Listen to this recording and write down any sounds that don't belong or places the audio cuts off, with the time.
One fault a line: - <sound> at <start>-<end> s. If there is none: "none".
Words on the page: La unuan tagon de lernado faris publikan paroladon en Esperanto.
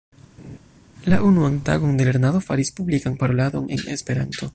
- laugh at 0.4-0.6 s